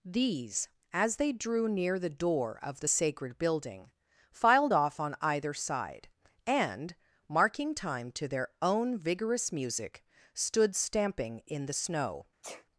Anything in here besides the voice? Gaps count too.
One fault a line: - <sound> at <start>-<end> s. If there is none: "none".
- sneeze at 12.4-12.7 s